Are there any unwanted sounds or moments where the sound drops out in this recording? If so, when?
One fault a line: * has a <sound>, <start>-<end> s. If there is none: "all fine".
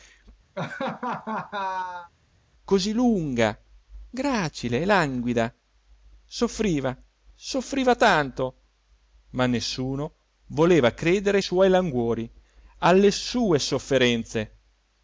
* has a laugh, 0.6-2.1 s